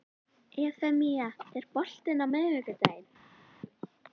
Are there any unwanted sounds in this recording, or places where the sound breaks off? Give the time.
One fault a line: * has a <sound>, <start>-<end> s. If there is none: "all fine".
all fine